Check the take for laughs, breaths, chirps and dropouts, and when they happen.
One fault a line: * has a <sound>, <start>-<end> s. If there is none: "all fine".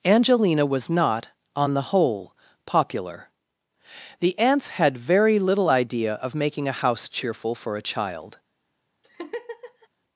* has a laugh, 9.0-9.9 s